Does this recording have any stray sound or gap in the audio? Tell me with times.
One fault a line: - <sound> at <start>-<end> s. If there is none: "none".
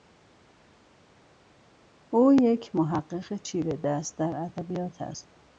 none